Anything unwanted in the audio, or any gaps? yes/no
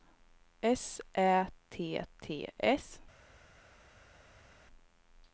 no